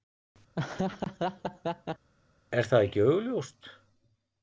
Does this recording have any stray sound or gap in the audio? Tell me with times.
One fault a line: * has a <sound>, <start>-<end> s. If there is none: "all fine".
* has a laugh, 0.5-2.1 s